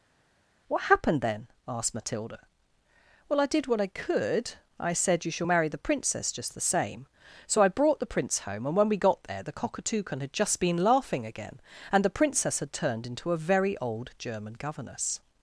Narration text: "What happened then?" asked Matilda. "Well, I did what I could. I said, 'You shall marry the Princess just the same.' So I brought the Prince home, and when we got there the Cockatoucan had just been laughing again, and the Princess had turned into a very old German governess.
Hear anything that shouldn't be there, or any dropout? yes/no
no